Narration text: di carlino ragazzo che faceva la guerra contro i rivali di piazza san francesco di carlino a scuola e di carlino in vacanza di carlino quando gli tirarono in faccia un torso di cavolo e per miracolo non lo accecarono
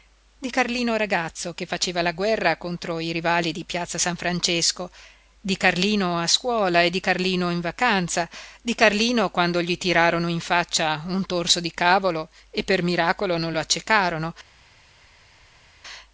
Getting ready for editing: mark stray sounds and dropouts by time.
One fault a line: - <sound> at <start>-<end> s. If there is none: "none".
none